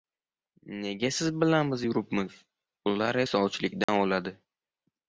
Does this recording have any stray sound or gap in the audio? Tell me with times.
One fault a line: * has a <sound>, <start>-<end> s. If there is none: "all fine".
* has a dropout, 3.8-3.9 s